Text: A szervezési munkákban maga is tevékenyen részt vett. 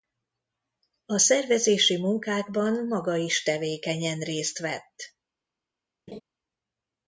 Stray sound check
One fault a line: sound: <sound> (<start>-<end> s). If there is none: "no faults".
sound: laugh (6.1-6.2 s)